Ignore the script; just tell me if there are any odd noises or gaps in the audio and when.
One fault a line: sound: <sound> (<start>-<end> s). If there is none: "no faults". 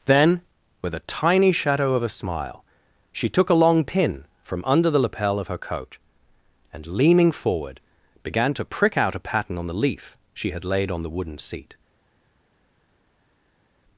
no faults